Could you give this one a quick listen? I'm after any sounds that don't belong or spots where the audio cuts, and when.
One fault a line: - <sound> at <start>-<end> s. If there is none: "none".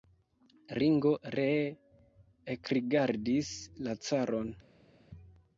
none